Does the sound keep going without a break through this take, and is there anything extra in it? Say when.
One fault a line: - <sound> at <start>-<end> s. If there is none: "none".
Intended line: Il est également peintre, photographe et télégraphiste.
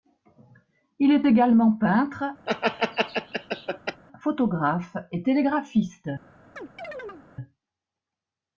- laugh at 2.5-4.0 s
- chirp at 6.6-7.3 s